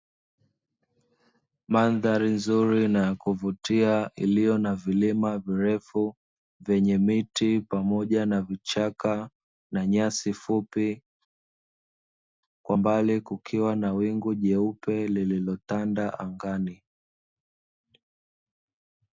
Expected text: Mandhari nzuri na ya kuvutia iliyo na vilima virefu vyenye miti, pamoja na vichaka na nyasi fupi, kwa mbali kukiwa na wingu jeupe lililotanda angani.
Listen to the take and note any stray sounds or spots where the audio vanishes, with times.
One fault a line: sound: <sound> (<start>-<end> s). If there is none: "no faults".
no faults